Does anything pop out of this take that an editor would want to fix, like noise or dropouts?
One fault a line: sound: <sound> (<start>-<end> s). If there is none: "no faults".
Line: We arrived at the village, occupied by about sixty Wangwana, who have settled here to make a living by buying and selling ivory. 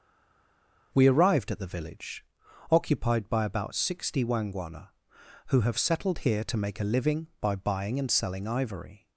no faults